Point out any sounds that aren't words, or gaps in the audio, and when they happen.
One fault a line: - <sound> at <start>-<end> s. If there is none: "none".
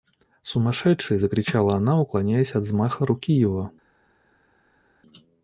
none